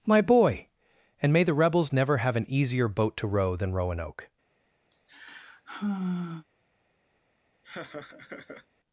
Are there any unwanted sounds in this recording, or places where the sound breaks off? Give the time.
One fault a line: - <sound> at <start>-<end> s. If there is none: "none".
- sigh at 4.9-6.5 s
- laugh at 7.6-8.7 s